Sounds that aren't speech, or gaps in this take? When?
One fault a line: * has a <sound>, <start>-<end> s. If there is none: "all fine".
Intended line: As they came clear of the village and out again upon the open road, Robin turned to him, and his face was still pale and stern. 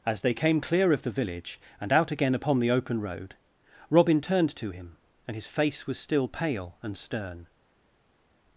all fine